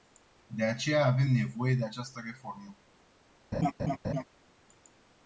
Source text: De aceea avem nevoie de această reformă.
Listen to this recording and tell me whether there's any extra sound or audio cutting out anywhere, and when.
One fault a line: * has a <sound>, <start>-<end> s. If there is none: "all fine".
* has a laugh, 3.5-4.2 s